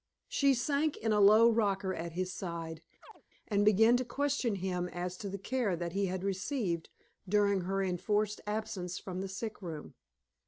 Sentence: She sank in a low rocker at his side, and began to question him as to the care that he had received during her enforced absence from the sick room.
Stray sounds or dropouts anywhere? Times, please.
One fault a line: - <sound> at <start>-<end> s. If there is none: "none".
- chirp at 3.0-3.2 s